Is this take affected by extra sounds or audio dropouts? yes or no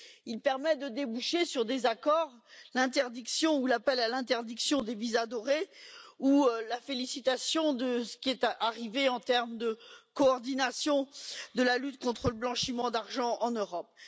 no